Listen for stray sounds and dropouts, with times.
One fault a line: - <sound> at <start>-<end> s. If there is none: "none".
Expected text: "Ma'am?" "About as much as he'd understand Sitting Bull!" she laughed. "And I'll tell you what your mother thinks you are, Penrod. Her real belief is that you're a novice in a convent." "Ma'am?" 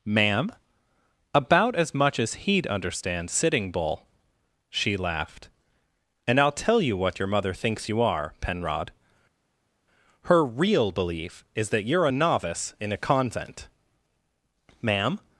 none